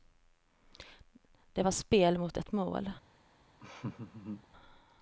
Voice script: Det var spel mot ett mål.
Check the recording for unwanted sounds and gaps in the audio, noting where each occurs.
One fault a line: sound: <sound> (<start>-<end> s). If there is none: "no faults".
sound: laugh (3.6-4.5 s)